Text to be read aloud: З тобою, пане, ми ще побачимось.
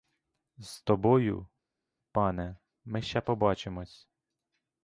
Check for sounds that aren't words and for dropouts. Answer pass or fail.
pass